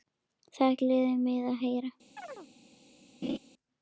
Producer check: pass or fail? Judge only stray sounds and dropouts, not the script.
fail